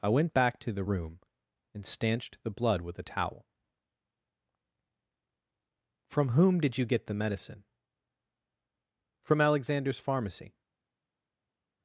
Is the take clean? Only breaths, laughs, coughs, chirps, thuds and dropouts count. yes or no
yes